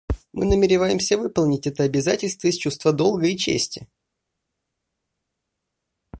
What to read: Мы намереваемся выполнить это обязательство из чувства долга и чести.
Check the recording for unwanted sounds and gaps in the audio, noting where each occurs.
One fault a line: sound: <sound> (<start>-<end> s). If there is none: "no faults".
no faults